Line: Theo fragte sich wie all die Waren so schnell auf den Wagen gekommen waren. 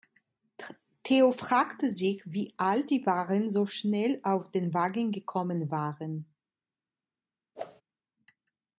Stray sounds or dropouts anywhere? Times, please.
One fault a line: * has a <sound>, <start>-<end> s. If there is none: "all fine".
* has a whoosh, 7.5-7.8 s